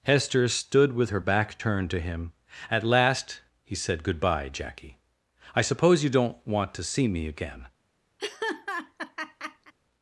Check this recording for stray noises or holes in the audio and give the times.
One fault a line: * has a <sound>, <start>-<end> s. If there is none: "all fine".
* has a laugh, 8.2-9.7 s